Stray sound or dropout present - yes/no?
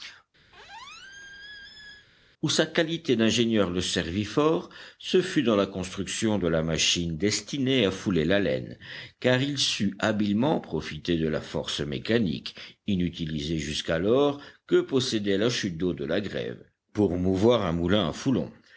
yes